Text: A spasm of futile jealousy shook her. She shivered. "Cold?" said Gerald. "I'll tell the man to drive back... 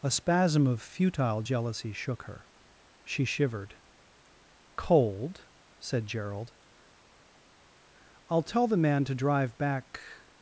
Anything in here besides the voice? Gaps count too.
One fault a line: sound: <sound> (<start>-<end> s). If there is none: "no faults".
no faults